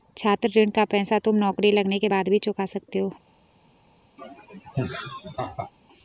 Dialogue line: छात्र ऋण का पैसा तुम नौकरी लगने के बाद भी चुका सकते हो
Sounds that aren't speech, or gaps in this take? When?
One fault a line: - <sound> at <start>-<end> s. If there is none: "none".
- laugh at 4.2-5.7 s